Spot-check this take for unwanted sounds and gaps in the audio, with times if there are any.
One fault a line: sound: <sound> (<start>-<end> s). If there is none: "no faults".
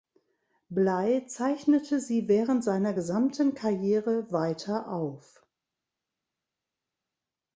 no faults